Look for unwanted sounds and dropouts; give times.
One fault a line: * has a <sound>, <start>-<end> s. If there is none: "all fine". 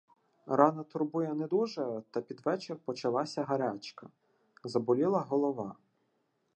all fine